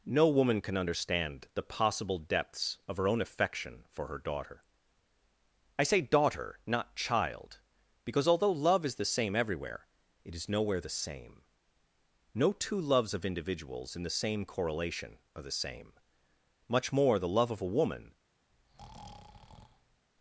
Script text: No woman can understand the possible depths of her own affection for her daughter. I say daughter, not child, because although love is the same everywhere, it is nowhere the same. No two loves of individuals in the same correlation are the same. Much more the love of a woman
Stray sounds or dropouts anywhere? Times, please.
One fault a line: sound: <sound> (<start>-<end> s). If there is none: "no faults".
sound: breath (18.5-20.0 s)